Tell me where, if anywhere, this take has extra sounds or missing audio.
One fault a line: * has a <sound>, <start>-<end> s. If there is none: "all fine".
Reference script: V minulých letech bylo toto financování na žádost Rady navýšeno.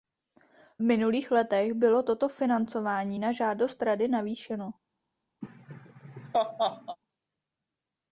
* has a laugh, 5.4-7.0 s